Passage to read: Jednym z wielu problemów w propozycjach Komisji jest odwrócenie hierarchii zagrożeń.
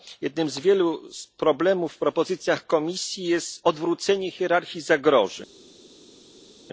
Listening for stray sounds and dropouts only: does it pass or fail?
pass